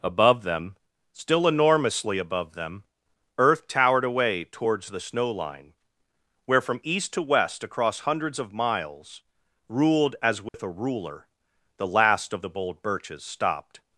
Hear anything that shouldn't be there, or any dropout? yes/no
yes